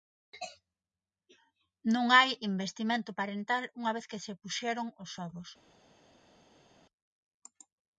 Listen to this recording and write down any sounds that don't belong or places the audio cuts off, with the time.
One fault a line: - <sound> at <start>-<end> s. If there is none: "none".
none